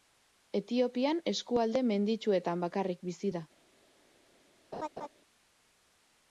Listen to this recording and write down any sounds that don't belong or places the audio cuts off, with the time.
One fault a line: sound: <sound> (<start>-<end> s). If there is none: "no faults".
sound: laugh (4.7-5.1 s)